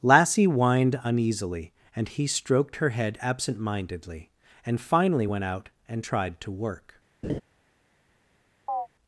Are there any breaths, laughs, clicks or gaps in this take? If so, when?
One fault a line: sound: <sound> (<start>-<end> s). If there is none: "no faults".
sound: laugh (7.2-7.4 s)
sound: chirp (8.7-8.9 s)